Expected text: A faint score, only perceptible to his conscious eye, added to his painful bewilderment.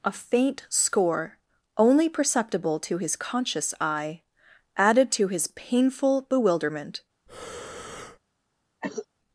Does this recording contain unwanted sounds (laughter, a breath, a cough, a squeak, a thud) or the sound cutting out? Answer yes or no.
yes